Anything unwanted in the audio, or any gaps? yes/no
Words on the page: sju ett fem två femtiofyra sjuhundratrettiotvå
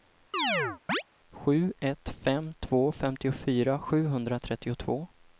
yes